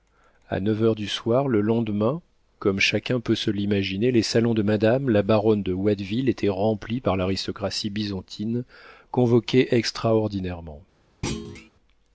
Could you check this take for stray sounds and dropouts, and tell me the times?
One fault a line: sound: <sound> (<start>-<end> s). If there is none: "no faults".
sound: thud (11.2-11.7 s)